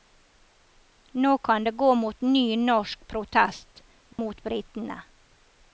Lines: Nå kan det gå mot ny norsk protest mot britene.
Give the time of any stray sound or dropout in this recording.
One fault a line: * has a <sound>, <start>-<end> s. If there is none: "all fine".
* has a dropout, 4.1-4.2 s